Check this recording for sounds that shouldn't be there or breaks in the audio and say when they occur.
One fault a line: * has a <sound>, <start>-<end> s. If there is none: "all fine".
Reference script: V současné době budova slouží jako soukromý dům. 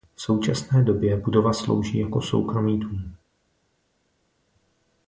all fine